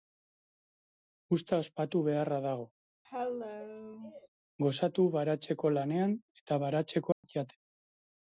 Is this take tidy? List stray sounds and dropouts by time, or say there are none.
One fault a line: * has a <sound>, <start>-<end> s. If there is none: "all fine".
* has a cough, 3.0-4.3 s
* has a dropout, 7.1-7.2 s